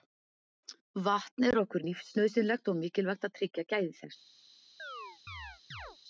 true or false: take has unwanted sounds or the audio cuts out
true